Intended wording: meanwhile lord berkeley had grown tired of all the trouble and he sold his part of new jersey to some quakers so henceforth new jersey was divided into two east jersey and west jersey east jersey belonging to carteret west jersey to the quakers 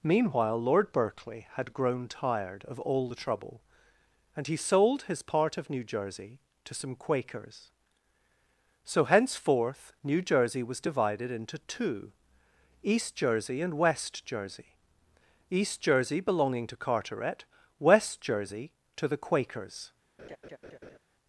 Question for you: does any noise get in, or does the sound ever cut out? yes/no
yes